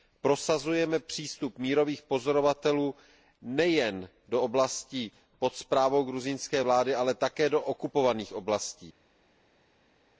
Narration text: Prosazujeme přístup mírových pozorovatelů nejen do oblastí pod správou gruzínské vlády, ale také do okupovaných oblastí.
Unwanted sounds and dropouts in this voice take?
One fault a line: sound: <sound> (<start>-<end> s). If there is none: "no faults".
no faults